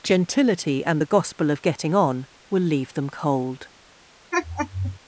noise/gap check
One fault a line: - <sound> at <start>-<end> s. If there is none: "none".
- laugh at 4.3-5.0 s